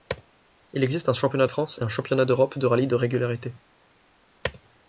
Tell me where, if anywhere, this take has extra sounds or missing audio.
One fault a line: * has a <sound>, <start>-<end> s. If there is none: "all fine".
all fine